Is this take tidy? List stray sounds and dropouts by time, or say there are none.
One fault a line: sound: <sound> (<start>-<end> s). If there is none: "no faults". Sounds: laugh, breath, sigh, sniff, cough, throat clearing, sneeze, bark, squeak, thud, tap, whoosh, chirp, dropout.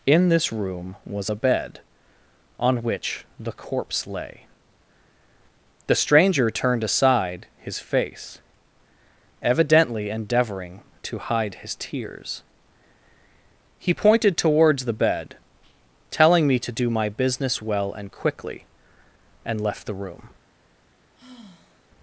sound: sigh (21.2-21.9 s)